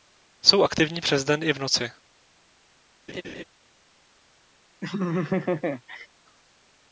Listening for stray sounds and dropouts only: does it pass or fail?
fail